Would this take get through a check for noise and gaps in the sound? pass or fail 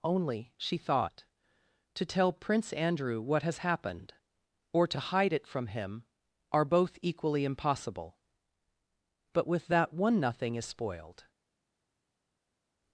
pass